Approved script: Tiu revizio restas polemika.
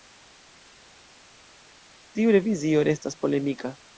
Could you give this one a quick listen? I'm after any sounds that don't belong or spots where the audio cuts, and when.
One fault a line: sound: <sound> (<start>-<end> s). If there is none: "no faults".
no faults